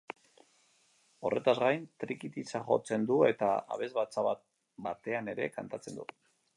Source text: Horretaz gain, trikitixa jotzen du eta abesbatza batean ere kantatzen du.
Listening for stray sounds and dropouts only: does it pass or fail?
pass